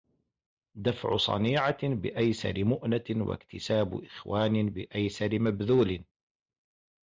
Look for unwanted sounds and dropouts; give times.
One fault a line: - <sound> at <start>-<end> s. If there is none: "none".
none